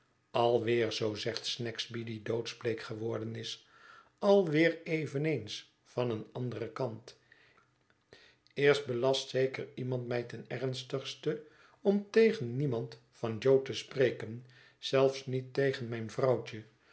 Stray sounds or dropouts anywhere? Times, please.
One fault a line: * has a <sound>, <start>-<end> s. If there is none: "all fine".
all fine